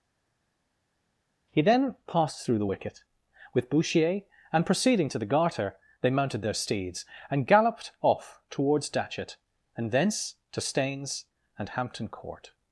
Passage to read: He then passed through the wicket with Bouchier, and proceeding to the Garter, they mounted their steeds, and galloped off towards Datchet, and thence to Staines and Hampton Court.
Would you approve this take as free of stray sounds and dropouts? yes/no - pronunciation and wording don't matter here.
yes